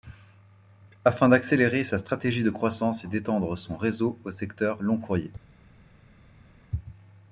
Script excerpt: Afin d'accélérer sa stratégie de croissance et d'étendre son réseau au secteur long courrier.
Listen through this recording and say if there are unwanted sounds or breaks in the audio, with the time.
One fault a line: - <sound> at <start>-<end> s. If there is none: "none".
none